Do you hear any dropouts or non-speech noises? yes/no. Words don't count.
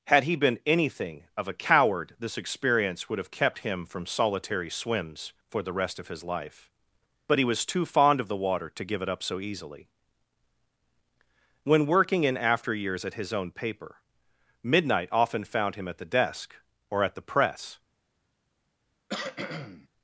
yes